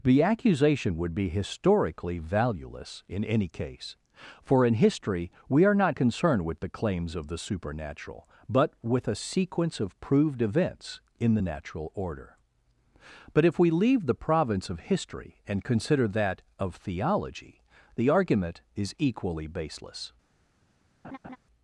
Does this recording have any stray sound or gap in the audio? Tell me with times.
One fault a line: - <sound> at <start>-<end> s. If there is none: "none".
- laugh at 21.0-21.4 s